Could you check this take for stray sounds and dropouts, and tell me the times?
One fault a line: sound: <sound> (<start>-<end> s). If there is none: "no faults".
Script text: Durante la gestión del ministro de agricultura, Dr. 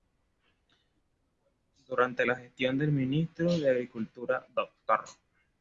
no faults